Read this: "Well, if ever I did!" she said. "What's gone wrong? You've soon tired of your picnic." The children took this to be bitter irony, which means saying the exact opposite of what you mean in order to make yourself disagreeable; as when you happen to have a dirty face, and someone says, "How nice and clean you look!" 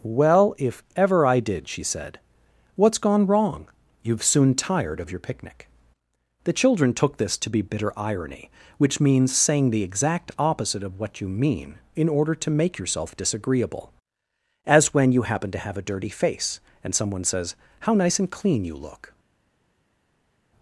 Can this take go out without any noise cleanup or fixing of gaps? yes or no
yes